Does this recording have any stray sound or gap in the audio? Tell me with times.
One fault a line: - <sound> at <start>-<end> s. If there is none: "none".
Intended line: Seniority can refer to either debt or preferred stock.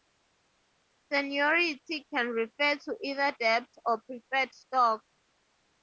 none